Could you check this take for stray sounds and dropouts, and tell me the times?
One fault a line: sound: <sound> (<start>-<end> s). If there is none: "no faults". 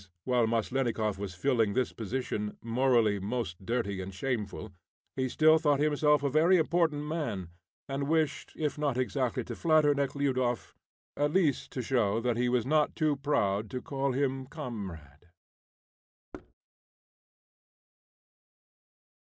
sound: thud (16.3-16.5 s)